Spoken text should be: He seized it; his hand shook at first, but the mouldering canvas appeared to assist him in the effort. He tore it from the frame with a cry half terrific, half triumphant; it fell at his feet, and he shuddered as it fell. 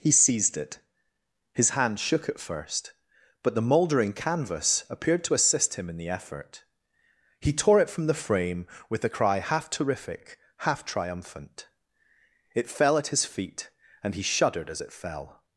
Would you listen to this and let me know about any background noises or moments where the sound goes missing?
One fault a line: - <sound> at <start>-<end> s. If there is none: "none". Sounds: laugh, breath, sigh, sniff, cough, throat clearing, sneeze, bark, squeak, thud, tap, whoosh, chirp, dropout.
none